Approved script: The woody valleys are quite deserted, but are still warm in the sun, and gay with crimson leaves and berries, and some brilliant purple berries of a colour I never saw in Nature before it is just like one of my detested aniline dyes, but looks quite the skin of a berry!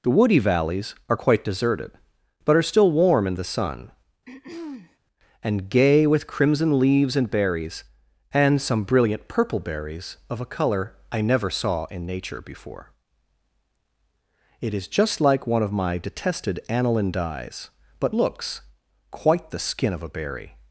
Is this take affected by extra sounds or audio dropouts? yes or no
yes